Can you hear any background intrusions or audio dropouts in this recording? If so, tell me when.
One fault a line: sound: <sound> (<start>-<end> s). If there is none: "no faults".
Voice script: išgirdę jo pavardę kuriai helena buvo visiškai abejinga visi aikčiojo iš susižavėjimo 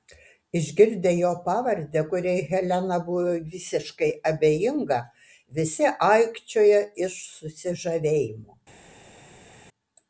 no faults